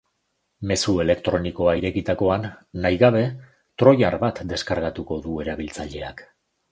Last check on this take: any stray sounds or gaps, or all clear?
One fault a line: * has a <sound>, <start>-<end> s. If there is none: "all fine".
all fine